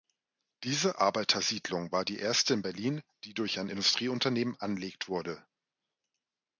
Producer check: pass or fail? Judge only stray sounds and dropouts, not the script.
pass